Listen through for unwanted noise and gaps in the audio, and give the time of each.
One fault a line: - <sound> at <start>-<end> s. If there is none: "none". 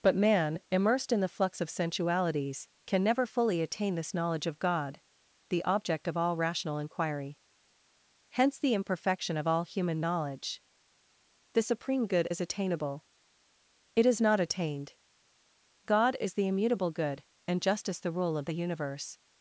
none